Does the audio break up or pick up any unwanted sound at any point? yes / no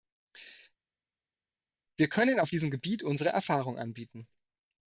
no